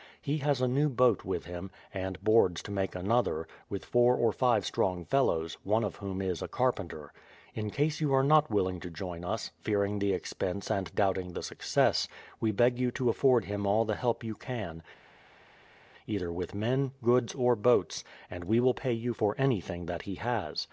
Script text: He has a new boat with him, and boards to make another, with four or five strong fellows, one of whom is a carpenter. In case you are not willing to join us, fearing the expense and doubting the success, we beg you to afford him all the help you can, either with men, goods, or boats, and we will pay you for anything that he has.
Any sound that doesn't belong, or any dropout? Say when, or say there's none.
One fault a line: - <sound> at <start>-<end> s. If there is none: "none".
none